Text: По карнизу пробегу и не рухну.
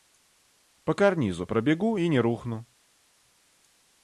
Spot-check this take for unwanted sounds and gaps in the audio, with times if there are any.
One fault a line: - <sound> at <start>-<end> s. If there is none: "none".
none